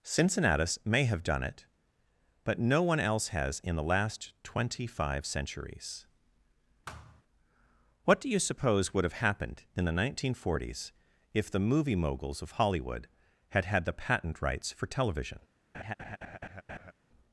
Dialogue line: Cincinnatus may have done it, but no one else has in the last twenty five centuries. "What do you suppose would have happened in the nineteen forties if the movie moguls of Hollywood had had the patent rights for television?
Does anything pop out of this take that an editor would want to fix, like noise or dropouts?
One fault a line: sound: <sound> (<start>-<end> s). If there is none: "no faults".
sound: thud (6.9-7.2 s)
sound: laugh (15.7-16.9 s)